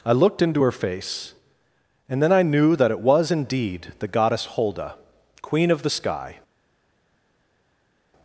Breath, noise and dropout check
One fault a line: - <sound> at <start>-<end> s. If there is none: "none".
none